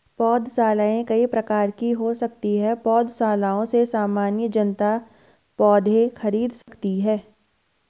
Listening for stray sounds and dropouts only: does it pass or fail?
fail